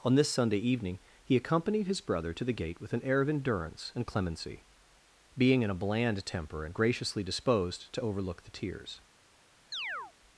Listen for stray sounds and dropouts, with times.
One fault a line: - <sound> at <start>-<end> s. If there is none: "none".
- chirp at 9.7-10.1 s